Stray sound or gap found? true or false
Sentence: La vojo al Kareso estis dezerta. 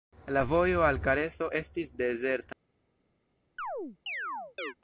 true